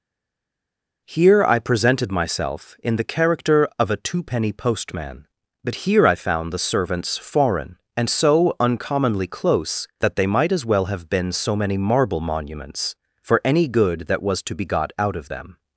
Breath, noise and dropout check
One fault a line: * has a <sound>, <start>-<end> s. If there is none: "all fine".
all fine